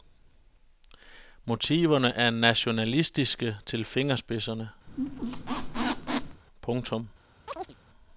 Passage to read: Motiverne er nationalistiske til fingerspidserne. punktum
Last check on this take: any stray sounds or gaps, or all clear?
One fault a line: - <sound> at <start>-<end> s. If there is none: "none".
- squeak at 4.9-6.4 s
- chirp at 7.5-7.8 s